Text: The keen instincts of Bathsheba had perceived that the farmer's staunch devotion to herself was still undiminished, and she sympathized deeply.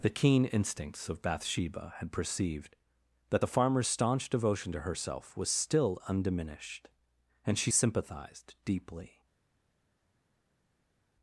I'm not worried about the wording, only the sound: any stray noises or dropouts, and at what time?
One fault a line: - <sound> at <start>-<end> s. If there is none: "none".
none